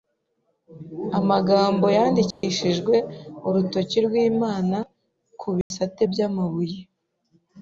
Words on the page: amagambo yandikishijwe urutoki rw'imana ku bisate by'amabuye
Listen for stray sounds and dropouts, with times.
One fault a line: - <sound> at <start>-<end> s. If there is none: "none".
- dropout at 2.3-2.4 s
- dropout at 5.6-5.7 s